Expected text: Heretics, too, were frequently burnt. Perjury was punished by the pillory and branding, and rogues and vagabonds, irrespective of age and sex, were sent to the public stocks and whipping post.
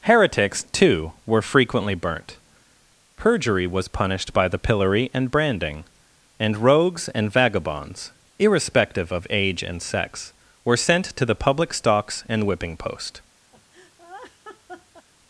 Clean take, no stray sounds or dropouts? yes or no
no